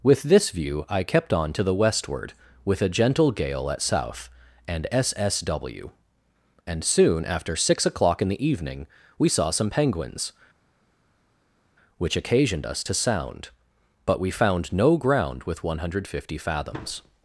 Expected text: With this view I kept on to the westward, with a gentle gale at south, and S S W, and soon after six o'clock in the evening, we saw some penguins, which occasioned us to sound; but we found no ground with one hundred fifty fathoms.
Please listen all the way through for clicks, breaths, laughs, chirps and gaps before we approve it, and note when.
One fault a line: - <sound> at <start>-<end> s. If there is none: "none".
none